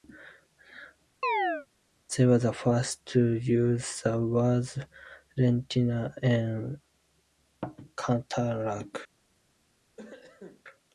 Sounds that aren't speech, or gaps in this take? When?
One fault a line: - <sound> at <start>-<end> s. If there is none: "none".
- chirp at 1.2-1.7 s
- cough at 10.0-10.6 s